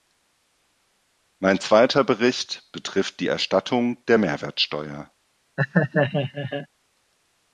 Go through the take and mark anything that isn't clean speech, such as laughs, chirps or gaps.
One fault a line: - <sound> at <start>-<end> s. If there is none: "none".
- laugh at 5.6-6.7 s